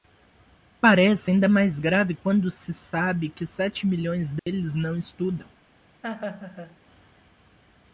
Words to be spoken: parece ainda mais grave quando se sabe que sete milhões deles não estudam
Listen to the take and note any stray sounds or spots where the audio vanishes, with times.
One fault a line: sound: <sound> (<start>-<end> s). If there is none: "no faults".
sound: dropout (4.4-4.5 s)
sound: laugh (6.0-6.8 s)